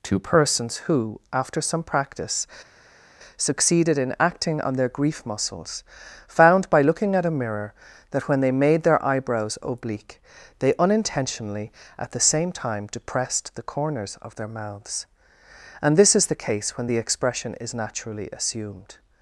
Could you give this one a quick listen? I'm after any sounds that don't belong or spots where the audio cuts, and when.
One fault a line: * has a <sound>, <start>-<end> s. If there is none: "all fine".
all fine